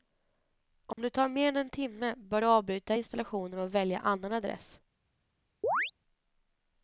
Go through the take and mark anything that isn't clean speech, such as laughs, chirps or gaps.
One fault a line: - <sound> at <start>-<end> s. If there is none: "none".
- dropout at 0.9-1.0 s
- chirp at 5.6-5.9 s